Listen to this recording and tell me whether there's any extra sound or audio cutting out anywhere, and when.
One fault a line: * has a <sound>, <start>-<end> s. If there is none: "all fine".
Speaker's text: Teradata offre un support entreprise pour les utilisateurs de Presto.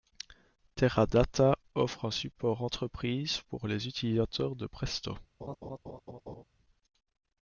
* has a laugh, 5.4-6.4 s